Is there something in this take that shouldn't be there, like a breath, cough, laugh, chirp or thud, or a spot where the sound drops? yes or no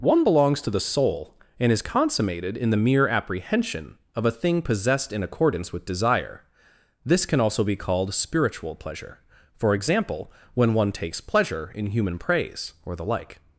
no